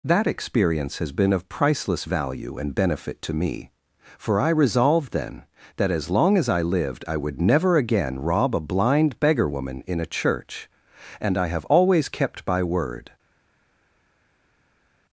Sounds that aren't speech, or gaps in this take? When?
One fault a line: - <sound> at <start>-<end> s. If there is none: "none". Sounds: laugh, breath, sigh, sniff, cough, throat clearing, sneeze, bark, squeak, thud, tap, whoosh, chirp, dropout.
none